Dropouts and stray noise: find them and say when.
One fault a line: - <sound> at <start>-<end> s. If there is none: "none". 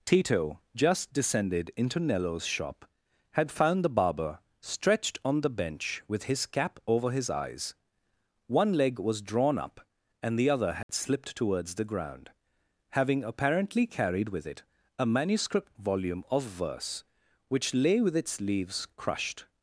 - dropout at 10.8-10.9 s